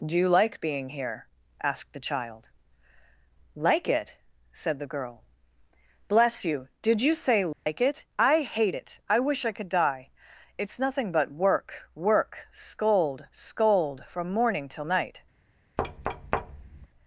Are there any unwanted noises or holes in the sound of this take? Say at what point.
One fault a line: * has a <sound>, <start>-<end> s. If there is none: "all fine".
* has a dropout, 7.5-7.7 s
* has a thud, 15.8-16.9 s